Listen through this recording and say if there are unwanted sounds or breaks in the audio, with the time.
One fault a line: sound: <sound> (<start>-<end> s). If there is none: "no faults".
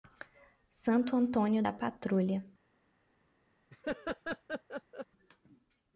sound: laugh (3.7-5.1 s)